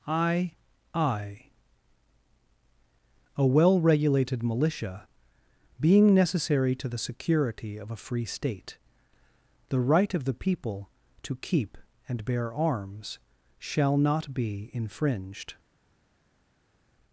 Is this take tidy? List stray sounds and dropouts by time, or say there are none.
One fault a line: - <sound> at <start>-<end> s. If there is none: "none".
none